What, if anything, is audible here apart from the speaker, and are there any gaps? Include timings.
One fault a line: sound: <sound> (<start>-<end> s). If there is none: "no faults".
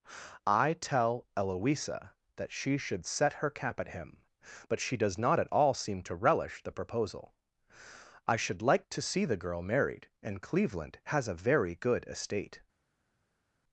no faults